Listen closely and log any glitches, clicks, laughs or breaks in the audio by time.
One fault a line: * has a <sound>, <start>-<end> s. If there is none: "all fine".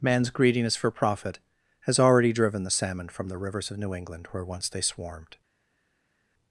all fine